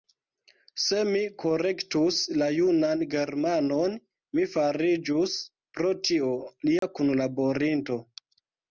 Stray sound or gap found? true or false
true